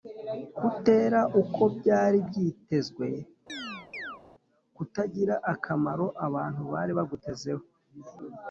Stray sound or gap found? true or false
true